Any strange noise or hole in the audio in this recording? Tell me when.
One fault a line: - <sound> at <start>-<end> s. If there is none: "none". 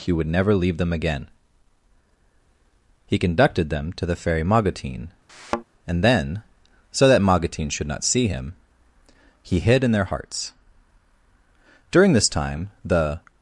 - thud at 5.3-5.6 s